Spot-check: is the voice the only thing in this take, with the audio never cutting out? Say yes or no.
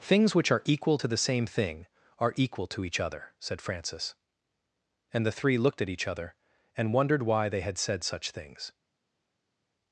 yes